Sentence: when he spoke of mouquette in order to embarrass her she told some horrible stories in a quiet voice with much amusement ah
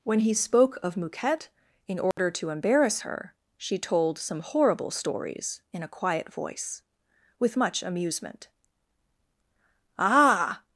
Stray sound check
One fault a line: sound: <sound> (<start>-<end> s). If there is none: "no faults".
sound: dropout (2.1-2.2 s)